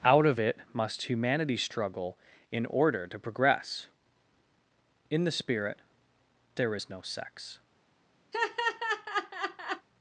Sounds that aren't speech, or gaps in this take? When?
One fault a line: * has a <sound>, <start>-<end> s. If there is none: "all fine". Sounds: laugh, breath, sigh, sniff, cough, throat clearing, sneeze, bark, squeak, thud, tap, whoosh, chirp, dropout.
* has a laugh, 8.3-9.9 s